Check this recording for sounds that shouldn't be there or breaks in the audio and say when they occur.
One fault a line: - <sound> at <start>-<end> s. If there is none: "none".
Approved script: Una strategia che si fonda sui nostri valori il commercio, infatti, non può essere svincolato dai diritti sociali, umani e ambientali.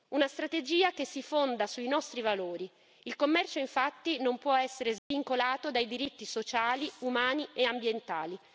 - dropout at 5.0-5.1 s